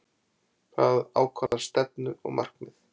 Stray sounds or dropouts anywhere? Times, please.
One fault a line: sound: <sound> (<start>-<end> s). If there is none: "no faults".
sound: dropout (1.5-1.5 s)